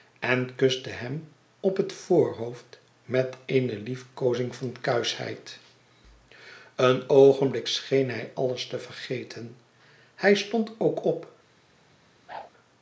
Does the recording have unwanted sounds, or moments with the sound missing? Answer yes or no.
yes